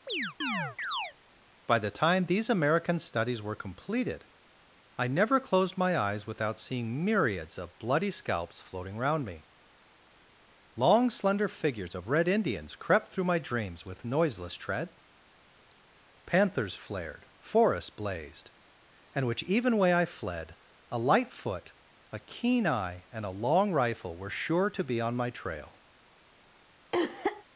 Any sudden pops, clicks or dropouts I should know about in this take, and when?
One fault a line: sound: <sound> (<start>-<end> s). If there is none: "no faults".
sound: chirp (0.1-1.1 s)
sound: cough (26.9-27.4 s)